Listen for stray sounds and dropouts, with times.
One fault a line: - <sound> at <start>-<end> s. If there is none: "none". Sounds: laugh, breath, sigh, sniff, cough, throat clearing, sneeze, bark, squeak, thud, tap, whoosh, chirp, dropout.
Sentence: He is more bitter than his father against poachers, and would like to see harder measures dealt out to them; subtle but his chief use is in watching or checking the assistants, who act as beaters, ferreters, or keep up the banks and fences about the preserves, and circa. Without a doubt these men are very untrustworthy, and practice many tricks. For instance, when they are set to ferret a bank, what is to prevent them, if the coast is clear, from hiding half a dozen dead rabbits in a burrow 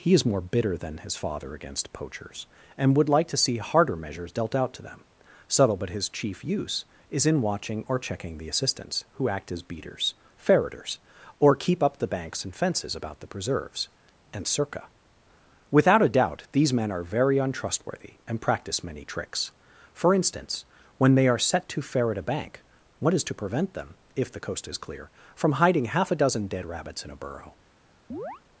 - chirp at 28.1-28.4 s